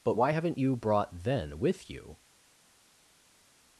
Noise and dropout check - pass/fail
pass